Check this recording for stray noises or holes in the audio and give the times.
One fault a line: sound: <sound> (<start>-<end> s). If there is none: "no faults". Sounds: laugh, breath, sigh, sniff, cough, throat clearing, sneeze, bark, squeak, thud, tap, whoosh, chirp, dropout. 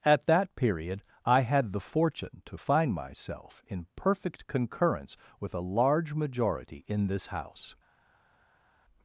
no faults